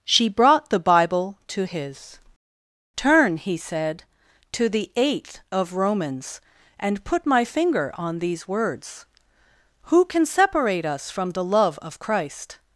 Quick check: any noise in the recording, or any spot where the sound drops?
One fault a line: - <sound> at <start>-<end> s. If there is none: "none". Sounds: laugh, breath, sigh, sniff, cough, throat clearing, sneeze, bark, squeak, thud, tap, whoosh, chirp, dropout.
none